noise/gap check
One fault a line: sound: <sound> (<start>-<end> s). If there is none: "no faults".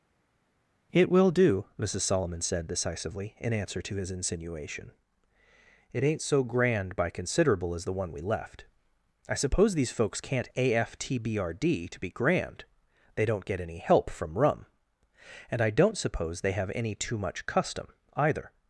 no faults